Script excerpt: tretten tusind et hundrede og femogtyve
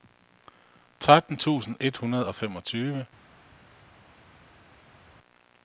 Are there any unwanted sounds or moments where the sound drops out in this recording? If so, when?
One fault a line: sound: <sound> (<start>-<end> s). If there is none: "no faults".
no faults